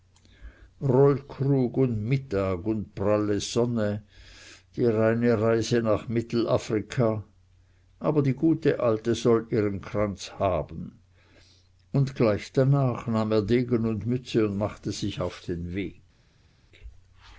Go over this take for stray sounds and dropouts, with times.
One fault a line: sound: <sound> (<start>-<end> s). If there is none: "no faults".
no faults